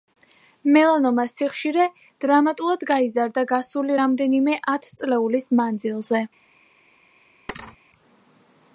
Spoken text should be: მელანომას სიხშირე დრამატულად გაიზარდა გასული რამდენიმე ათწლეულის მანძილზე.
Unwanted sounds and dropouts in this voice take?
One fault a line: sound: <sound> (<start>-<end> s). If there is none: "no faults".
sound: thud (7.5-7.8 s)